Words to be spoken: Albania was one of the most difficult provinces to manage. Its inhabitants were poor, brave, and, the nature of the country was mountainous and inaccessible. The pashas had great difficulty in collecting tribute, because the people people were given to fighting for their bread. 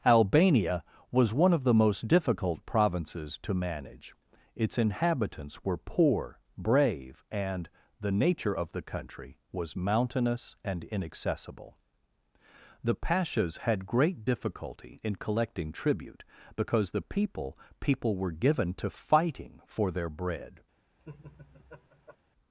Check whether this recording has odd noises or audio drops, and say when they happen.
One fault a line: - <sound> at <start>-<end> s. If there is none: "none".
- laugh at 21.0-22.2 s